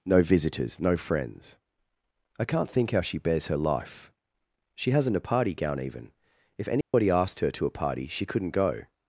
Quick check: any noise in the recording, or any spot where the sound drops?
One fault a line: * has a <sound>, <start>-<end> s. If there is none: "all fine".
* has a dropout, 6.8-6.9 s